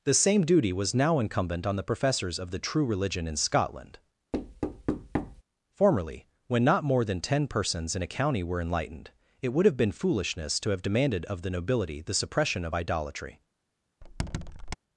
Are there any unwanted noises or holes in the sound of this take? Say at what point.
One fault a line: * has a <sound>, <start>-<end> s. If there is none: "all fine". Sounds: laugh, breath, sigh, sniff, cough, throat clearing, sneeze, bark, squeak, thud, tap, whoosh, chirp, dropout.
* has a thud, 4.3-5.4 s
* has a squeak, 14.0-14.8 s